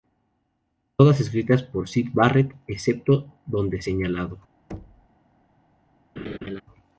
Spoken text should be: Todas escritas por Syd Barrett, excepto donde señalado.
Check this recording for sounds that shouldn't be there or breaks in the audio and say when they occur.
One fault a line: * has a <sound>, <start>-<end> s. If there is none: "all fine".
* has a thud, 4.7-5.1 s
* has a laugh, 6.2-6.6 s